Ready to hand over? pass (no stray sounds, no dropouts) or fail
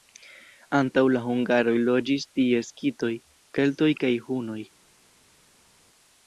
pass